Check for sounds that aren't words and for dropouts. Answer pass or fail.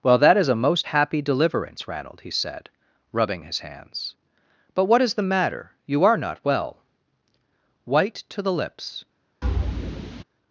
fail